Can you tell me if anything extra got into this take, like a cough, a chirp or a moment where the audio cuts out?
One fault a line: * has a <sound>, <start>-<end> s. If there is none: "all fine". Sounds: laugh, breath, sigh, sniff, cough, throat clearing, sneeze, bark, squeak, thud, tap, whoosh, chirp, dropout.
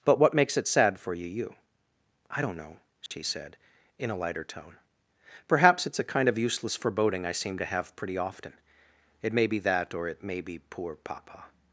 * has a dropout, 3.1-3.1 s